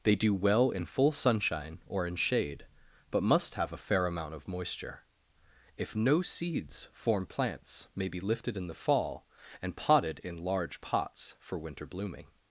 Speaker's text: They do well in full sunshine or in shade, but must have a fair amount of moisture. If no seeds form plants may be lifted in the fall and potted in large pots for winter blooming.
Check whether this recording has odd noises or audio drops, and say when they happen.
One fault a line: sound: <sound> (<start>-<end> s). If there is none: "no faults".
no faults